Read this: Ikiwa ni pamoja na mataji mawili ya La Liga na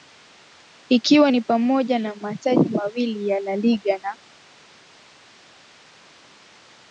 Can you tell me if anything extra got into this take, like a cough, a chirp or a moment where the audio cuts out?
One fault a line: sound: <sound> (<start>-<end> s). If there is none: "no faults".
no faults